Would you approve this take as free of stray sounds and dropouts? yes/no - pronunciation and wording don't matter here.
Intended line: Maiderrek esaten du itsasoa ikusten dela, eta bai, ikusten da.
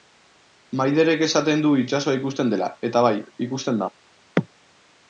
yes